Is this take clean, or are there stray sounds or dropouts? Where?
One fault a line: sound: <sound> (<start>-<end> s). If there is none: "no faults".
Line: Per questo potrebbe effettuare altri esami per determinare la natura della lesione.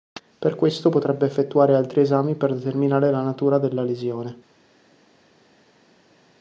no faults